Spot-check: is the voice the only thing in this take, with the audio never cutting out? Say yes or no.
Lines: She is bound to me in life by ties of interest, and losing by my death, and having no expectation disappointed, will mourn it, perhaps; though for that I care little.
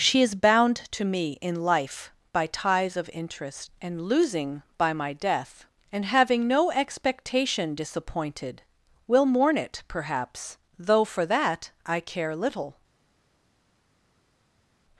yes